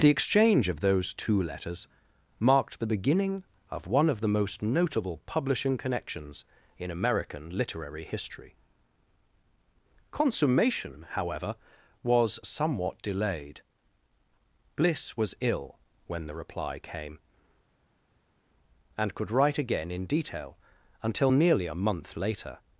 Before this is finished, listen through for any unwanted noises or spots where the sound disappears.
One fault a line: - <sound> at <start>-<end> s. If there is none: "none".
none